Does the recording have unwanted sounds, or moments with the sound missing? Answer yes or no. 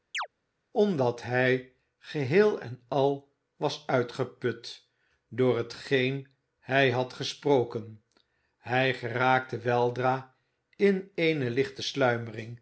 yes